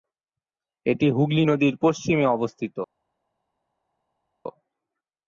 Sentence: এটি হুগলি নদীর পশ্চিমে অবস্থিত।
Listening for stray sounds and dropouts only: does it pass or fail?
pass